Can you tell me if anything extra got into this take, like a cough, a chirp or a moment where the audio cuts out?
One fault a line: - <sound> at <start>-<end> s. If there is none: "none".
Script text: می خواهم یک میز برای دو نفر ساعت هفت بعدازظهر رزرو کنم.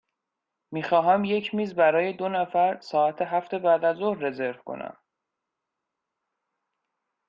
none